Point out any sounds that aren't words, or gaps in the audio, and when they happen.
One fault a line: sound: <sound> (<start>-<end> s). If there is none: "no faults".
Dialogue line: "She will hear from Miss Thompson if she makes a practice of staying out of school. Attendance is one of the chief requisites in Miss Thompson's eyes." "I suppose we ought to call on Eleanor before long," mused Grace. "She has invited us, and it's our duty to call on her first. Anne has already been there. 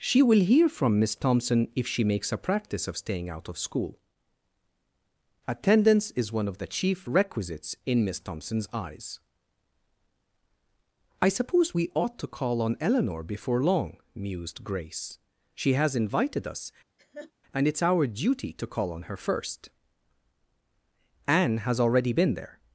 sound: laugh (17.0-17.3 s)